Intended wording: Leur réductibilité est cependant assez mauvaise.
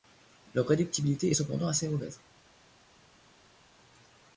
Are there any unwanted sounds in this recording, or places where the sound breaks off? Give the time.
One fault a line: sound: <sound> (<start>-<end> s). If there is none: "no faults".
no faults